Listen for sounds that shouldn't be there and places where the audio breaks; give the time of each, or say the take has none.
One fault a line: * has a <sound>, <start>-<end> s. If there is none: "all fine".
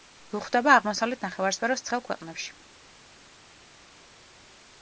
all fine